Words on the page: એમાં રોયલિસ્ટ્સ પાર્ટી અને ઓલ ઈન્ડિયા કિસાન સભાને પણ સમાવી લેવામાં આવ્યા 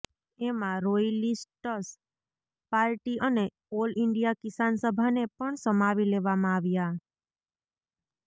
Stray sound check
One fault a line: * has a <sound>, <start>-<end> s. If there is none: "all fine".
all fine